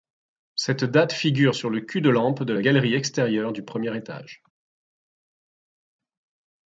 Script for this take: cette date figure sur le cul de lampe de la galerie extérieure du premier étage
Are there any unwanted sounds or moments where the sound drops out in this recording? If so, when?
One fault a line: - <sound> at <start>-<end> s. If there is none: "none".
none